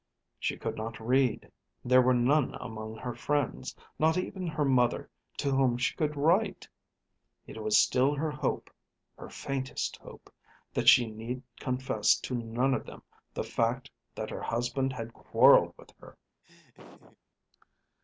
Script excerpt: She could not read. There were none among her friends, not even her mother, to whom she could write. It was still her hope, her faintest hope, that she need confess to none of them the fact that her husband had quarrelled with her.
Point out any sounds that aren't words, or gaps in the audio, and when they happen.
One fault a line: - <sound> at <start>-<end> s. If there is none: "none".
- laugh at 16.4-17.2 s